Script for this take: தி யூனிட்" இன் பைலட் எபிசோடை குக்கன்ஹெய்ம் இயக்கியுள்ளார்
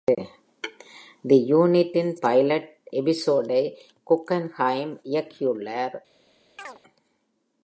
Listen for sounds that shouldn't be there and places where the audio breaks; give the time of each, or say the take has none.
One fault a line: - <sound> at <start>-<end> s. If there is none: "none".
- chirp at 6.6-6.8 s